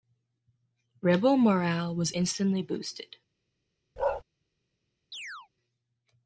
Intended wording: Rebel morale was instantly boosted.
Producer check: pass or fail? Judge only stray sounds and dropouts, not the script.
fail